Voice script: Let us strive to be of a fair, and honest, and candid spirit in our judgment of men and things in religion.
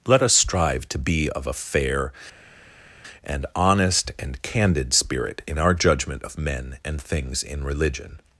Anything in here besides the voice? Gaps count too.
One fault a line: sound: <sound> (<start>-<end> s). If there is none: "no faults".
no faults